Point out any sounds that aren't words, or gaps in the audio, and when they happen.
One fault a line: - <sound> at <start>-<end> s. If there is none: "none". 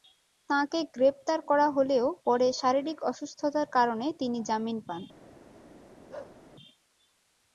- bark at 6.1-6.4 s